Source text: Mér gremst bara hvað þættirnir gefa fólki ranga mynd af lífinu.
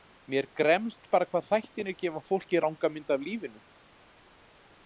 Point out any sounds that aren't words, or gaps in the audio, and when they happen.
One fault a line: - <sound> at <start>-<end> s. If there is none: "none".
none